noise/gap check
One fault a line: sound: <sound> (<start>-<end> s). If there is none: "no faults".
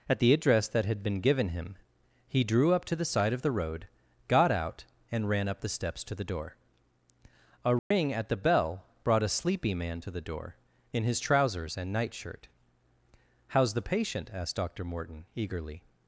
sound: dropout (7.8-7.9 s)